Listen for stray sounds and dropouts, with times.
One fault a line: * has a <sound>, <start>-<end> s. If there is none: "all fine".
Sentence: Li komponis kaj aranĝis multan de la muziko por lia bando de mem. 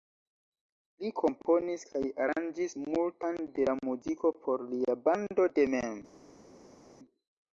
all fine